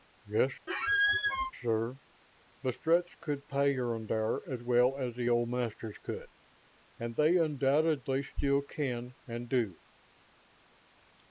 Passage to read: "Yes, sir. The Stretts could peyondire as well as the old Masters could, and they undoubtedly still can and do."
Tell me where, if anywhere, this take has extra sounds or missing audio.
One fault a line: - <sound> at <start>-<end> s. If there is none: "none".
- squeak at 0.7-1.5 s